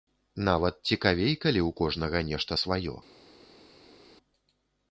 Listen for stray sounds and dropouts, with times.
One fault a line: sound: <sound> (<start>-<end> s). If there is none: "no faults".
no faults